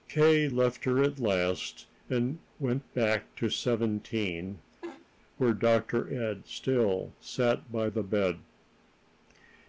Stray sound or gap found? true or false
true